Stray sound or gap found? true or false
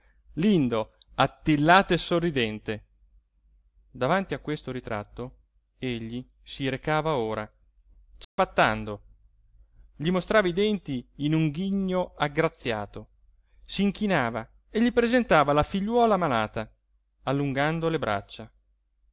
true